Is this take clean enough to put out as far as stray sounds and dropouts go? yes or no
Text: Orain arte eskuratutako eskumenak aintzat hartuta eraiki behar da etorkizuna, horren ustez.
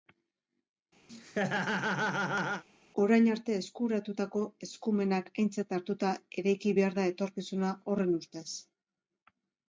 no